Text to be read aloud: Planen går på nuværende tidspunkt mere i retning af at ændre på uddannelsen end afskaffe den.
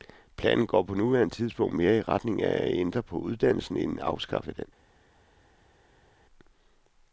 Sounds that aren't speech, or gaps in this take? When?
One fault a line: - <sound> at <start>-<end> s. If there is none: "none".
none